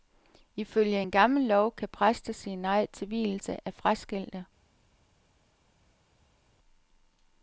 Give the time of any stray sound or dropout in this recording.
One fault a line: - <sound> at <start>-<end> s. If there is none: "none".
none